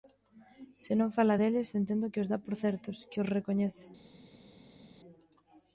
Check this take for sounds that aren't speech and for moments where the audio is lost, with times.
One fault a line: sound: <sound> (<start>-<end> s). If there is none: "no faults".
no faults